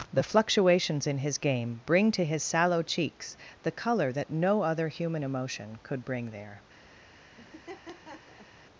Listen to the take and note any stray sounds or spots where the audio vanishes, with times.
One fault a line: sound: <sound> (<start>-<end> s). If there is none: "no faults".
sound: laugh (7.4-8.5 s)